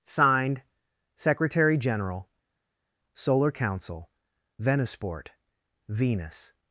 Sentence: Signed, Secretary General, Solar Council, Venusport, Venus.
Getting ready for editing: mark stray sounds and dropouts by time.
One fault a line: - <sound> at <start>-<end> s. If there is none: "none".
none